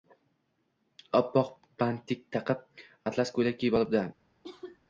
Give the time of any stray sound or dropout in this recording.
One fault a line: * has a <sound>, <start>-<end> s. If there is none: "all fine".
* has a cough, 4.4-4.8 s